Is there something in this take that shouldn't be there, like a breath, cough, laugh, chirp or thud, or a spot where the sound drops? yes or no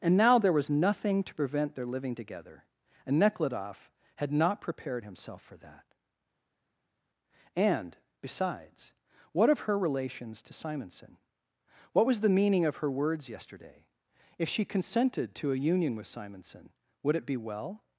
no